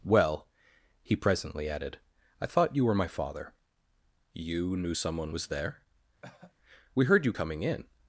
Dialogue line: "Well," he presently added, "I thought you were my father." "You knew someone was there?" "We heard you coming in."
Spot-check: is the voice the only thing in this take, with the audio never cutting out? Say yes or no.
no